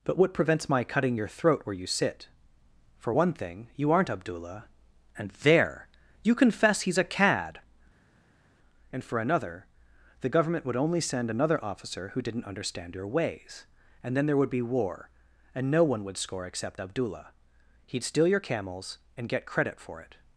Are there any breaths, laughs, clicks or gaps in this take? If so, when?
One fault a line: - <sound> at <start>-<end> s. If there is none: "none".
none